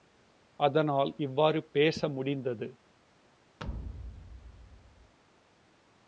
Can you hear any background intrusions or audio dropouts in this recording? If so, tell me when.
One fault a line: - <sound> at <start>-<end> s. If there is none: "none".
- thud at 3.6-5.1 s